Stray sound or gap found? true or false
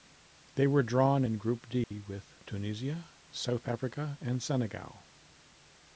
true